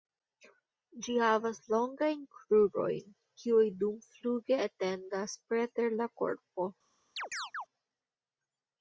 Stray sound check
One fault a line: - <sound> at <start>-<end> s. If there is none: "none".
- chirp at 7.2-7.7 s